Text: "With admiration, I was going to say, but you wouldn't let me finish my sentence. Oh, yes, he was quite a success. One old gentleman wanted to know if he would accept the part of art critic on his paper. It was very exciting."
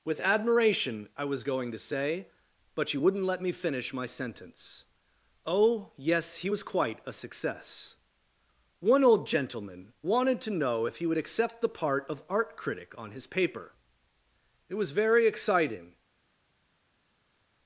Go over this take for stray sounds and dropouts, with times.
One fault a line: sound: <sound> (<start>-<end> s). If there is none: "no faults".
no faults